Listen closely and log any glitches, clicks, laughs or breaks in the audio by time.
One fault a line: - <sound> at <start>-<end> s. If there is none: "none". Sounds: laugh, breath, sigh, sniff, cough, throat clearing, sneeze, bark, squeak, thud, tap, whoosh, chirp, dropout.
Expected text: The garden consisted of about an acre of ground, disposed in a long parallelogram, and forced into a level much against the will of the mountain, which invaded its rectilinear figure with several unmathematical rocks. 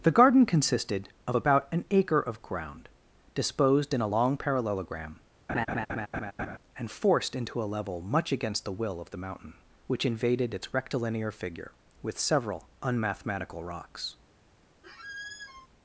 - laugh at 5.5-6.6 s
- squeak at 14.8-15.7 s